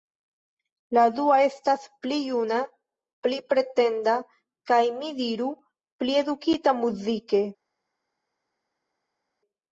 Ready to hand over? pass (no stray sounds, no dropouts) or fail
pass